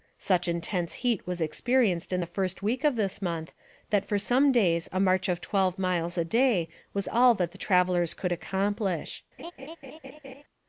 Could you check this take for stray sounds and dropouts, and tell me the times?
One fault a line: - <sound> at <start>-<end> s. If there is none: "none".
- laugh at 9.4-10.4 s